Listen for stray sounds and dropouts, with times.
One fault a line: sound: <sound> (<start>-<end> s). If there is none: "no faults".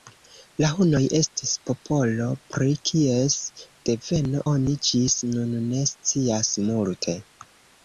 no faults